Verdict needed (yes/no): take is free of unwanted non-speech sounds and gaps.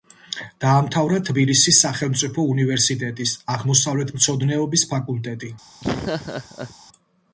no